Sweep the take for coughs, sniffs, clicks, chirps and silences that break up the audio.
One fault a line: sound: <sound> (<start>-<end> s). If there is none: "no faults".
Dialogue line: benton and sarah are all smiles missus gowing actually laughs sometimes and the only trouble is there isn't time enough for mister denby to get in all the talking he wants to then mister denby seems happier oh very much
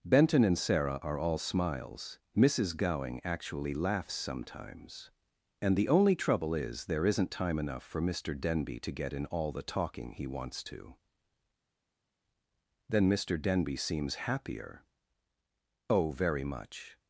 no faults